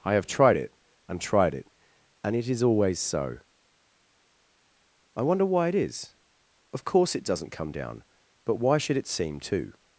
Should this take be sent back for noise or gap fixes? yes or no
no